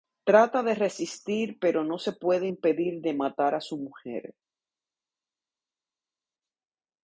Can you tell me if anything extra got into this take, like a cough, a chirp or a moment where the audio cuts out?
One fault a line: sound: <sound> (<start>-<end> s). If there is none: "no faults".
no faults